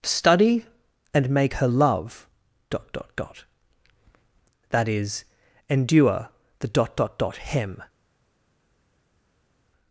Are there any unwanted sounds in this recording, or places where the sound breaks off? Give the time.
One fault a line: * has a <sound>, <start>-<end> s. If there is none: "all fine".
all fine